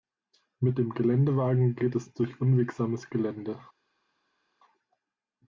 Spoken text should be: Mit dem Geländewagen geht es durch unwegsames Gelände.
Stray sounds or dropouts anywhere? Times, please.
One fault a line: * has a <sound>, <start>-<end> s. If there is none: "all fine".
all fine